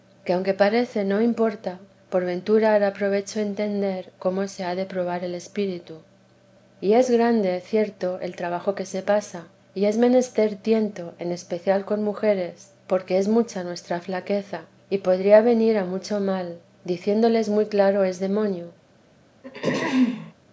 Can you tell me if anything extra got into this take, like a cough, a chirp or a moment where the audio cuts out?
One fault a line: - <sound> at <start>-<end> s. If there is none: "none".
- throat clearing at 19.4-20.3 s